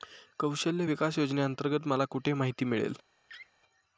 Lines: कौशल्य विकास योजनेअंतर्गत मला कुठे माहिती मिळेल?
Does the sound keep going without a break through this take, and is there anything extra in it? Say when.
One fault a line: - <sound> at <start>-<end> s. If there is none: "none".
- laugh at 3.3-3.5 s